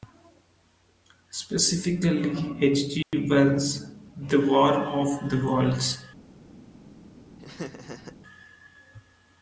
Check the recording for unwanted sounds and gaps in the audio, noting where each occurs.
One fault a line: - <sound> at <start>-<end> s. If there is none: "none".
- dropout at 3.0-3.1 s
- laugh at 7.4-8.2 s